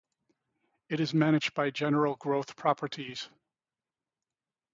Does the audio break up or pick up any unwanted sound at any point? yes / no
no